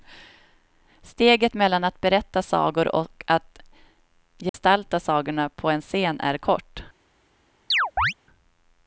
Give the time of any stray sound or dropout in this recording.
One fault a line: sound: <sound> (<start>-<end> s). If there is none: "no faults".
sound: dropout (4.5-4.5 s)
sound: chirp (7.7-8.1 s)